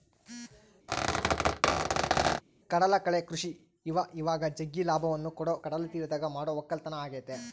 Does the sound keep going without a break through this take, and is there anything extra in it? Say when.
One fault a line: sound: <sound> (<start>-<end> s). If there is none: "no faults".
sound: squeak (0.9-2.4 s)